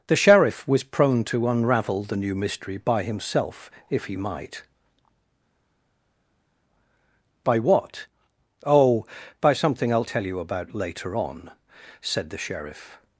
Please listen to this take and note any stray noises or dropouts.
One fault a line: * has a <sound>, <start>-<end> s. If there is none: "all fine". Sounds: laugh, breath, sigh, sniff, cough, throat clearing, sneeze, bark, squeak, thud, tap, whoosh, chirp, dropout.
all fine